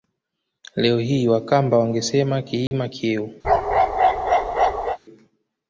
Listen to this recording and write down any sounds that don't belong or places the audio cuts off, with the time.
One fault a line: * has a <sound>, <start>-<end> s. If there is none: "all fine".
* has a dropout, 2.7-2.7 s
* has a bark, 3.4-5.0 s